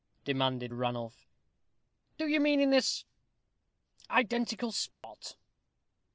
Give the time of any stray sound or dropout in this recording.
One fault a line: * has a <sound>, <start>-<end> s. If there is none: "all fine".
* has a dropout, 4.9-5.0 s